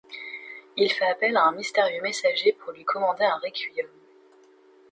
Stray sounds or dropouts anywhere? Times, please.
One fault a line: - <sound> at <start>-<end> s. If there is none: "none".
none